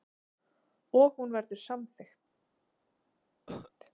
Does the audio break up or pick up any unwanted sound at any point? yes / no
yes